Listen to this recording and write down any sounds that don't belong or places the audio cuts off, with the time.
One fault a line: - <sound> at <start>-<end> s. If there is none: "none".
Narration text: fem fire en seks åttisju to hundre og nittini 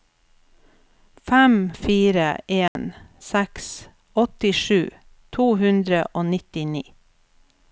- dropout at 2.7-2.8 s